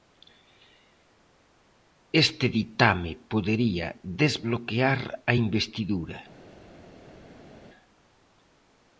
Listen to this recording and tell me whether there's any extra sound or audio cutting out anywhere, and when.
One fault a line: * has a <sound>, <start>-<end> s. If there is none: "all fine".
all fine